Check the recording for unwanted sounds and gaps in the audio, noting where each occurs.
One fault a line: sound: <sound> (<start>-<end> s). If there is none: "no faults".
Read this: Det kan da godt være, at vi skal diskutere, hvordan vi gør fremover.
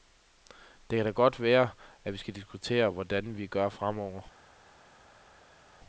no faults